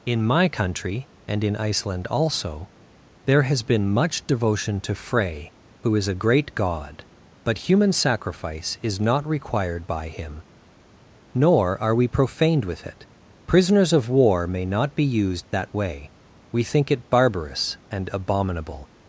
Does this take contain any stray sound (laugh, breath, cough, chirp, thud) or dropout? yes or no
no